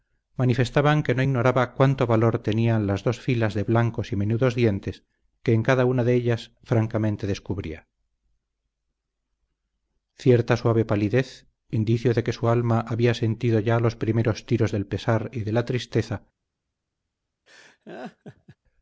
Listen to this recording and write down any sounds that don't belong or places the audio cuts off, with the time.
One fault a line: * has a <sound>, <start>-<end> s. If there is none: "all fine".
* has a laugh, 17.5-18.6 s